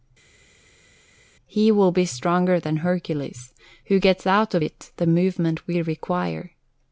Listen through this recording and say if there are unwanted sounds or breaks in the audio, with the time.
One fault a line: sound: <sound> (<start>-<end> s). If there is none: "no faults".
no faults